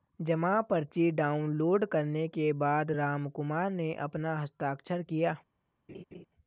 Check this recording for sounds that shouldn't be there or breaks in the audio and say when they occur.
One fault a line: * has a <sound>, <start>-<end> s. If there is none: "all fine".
* has a laugh, 5.9-6.2 s